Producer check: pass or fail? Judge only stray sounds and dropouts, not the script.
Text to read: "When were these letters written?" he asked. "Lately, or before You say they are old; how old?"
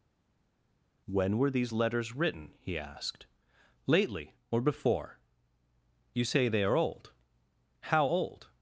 pass